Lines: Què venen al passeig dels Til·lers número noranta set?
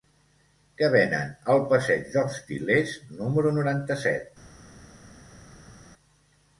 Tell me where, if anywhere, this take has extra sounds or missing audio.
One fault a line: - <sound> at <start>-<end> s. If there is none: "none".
none